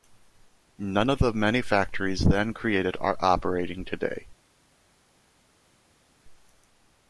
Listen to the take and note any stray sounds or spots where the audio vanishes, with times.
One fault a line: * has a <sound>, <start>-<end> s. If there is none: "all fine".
all fine